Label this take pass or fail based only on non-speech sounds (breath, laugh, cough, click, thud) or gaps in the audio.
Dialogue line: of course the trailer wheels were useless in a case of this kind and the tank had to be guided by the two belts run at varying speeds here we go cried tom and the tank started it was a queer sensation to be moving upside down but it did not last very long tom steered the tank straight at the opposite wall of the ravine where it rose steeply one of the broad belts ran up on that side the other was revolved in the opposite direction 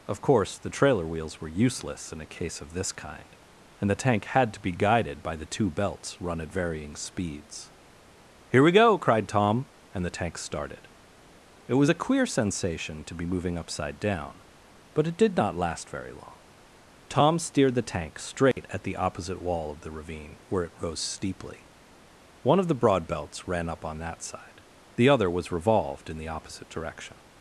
fail